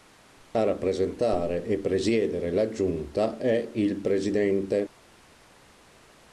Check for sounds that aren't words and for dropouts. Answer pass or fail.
pass